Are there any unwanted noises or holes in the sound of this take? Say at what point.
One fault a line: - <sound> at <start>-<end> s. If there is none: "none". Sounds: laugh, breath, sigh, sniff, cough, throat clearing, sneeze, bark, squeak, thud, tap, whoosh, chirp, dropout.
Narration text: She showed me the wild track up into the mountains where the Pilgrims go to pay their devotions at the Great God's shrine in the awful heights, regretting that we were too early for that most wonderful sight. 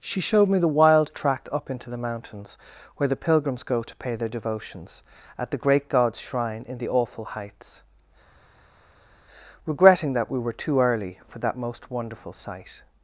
none